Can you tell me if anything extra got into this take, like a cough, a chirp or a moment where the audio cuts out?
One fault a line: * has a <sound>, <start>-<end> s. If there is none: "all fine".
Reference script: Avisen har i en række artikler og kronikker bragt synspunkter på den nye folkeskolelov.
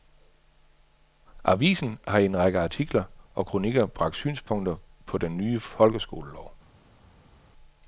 all fine